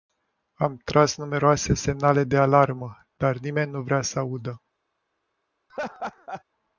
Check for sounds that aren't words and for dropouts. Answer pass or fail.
fail